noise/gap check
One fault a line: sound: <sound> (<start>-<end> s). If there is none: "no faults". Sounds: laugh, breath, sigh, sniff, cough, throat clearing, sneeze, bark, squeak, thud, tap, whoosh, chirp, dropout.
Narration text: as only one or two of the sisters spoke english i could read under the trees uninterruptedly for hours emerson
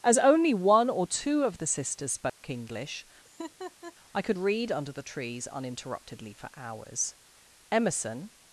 sound: dropout (2.3-2.4 s)
sound: laugh (3.2-3.9 s)